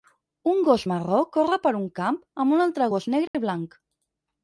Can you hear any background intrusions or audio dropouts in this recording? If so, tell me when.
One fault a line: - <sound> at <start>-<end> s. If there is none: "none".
- dropout at 3.3-3.3 s